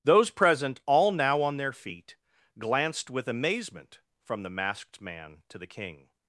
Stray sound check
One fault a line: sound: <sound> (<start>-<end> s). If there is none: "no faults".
no faults